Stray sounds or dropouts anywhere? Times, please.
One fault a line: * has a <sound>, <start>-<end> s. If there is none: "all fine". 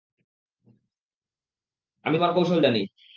all fine